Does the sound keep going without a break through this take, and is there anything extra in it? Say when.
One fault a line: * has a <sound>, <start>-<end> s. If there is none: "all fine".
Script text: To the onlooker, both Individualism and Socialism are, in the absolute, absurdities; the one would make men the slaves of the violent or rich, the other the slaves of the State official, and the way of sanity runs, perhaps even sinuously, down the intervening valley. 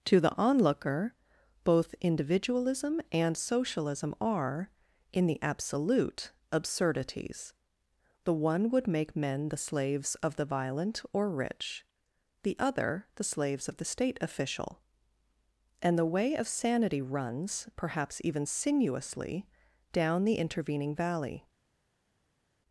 all fine